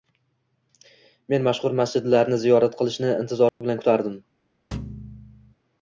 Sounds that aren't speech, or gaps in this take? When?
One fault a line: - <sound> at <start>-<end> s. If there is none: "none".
- dropout at 3.5-3.6 s
- thud at 4.7-5.5 s